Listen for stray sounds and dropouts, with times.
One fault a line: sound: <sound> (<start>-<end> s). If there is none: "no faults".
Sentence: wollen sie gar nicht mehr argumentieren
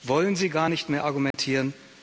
sound: dropout (1.3-1.3 s)